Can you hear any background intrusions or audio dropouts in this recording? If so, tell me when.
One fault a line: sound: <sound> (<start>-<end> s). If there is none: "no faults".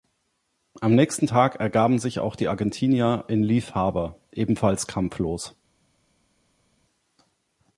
no faults